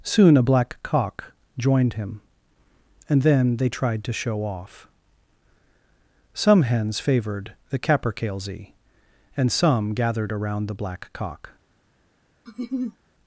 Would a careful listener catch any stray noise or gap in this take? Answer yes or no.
yes